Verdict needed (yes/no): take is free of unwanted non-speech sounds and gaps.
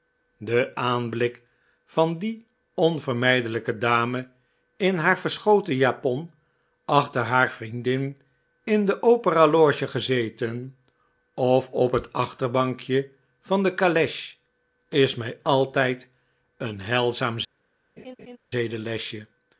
no